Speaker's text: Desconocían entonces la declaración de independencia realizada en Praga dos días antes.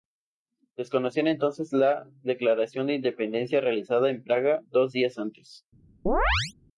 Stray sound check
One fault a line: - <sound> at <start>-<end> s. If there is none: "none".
- chirp at 6.1-6.5 s